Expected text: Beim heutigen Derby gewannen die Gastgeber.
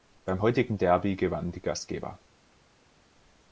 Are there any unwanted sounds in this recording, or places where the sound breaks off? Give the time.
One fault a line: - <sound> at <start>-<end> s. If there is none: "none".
none